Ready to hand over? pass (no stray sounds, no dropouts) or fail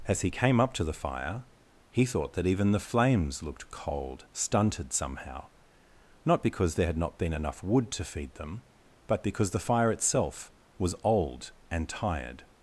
pass